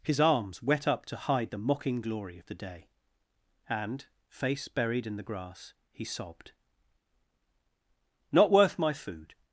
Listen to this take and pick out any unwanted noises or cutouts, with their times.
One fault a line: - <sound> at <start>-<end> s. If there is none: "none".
none